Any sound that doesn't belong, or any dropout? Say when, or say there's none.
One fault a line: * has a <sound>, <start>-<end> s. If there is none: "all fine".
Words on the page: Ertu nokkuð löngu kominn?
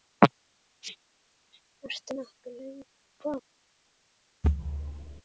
* has a thud, 4.4-5.2 s